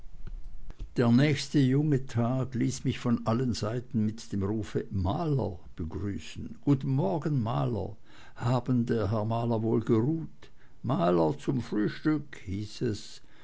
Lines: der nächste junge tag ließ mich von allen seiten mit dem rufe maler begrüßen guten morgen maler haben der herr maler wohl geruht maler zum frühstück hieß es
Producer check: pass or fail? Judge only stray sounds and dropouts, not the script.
pass